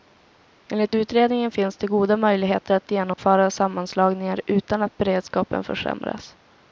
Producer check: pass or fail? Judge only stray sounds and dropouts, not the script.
fail